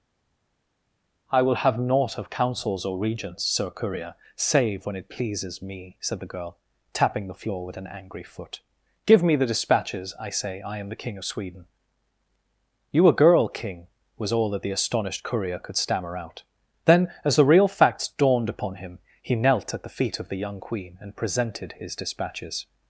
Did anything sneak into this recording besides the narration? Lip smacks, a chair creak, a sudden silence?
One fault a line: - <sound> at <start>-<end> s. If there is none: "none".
none